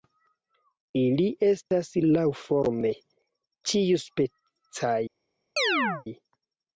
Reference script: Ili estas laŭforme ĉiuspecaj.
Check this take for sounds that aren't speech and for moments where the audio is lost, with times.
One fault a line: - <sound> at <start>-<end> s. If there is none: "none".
- chirp at 5.6-6.1 s